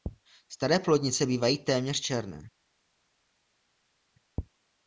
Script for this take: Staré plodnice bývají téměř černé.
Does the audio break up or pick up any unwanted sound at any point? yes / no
no